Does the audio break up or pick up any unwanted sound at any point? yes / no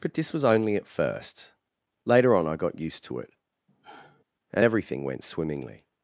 yes